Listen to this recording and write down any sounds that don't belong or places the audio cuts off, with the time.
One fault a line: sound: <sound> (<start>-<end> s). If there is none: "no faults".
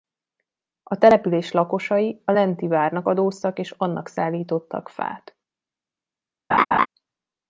sound: laugh (6.5-6.9 s)